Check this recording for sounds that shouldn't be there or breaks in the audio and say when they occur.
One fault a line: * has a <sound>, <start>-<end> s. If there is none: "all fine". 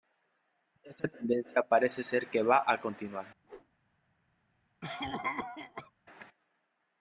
* has a whoosh, 3.4-3.7 s
* has a cough, 4.8-5.9 s